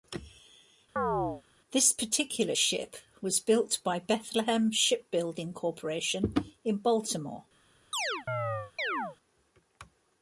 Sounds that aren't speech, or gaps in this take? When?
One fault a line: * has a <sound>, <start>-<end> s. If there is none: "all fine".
* has a chirp, 1.0-1.4 s
* has a chirp, 7.9-9.2 s